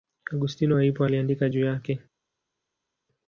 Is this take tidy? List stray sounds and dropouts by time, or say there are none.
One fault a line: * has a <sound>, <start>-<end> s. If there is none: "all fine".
all fine